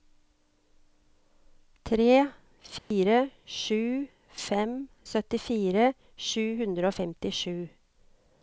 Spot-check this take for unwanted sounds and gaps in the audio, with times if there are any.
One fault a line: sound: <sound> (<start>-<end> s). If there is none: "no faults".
sound: dropout (2.8-2.9 s)